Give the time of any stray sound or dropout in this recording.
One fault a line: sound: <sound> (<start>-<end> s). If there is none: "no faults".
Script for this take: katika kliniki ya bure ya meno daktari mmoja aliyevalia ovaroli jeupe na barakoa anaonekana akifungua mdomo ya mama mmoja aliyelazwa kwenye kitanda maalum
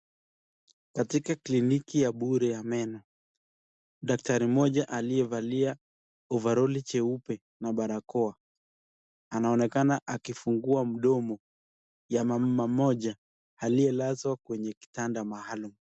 no faults